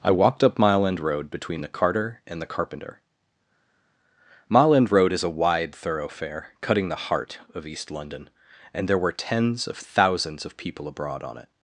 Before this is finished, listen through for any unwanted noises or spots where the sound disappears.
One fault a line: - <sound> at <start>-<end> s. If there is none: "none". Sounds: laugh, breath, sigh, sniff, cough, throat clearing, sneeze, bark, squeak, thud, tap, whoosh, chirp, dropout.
none